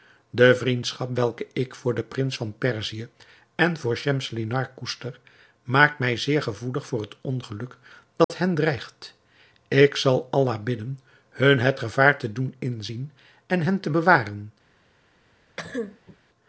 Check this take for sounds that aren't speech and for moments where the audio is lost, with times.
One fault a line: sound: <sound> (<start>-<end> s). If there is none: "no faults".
sound: dropout (8.2-8.3 s)
sound: cough (15.6-16.2 s)